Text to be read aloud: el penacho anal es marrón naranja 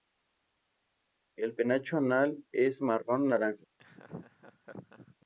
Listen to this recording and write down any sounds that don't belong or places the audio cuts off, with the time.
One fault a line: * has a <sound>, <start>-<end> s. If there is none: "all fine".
* has a laugh, 3.8-5.2 s